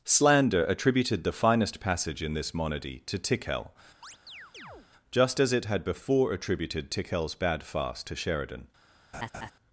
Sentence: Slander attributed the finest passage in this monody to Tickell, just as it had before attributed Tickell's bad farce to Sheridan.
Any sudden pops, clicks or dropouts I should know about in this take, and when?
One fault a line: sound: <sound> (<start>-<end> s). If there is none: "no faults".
sound: chirp (4.0-4.9 s)
sound: laugh (9.1-9.5 s)